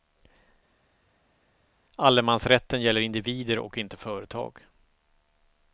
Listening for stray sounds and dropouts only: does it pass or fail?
pass